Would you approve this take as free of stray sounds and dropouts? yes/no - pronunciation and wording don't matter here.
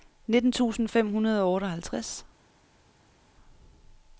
yes